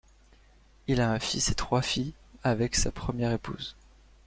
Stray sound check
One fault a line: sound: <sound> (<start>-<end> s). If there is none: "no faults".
no faults